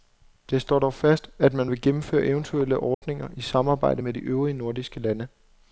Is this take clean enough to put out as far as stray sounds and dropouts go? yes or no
no